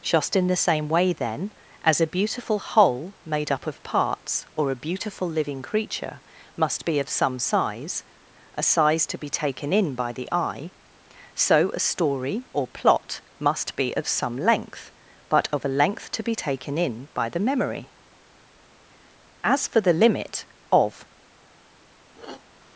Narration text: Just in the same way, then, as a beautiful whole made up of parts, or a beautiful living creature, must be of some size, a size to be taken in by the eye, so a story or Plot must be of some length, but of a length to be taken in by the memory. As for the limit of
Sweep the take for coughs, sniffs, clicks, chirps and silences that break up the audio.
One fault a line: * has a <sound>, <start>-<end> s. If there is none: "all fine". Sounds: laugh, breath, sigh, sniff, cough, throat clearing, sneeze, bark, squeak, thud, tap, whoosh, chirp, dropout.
* has a sniff, 22.1-22.4 s